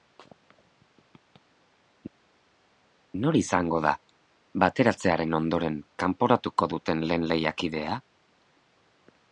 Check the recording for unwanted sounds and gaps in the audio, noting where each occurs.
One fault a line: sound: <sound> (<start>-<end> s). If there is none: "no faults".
no faults